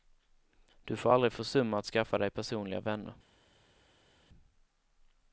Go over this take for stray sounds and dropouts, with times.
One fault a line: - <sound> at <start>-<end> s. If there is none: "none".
none